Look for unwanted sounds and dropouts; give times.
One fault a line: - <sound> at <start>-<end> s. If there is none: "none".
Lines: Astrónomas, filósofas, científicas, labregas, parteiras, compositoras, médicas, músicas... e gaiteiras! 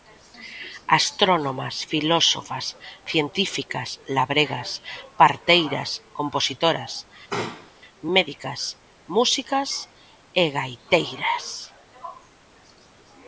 - sneeze at 7.3-7.7 s